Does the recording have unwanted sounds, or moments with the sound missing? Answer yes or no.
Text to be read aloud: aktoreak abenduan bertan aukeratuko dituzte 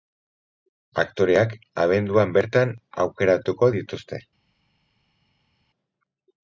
no